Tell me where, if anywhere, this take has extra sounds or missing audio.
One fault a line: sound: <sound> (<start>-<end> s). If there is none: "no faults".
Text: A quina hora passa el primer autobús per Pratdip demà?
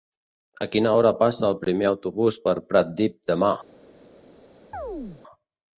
sound: chirp (4.7-5.2 s)